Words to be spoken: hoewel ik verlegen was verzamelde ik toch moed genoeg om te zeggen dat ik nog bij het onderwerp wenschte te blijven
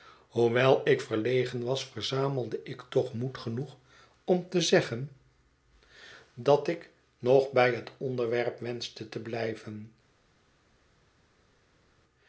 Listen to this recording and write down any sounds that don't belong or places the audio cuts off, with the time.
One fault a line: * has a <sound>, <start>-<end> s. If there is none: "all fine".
all fine